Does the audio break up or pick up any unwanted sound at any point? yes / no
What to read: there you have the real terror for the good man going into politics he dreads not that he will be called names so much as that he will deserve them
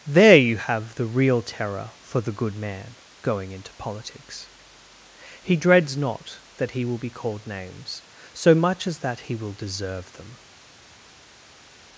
no